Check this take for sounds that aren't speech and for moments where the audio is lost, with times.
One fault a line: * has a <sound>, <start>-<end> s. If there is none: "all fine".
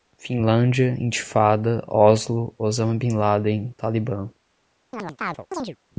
* has a chirp, 4.9-5.8 s